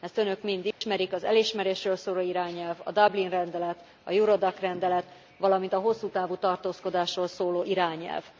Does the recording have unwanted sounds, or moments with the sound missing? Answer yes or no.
yes